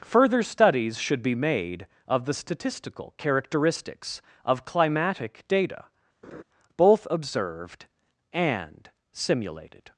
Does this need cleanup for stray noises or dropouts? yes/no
yes